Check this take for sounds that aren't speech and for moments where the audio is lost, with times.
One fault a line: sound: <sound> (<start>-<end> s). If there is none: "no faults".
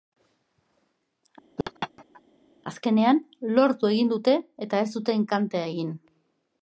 sound: laugh (1.6-2.2 s)